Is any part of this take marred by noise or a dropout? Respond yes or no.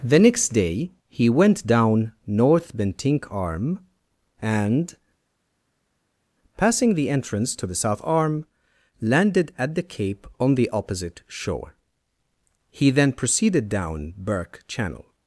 no